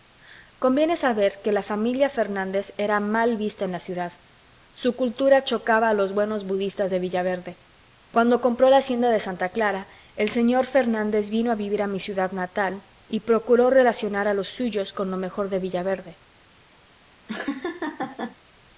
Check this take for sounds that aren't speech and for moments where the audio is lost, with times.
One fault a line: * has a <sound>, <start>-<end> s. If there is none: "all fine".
* has a laugh, 17.3-18.4 s